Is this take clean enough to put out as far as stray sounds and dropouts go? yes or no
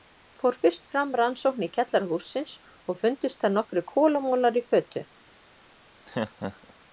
no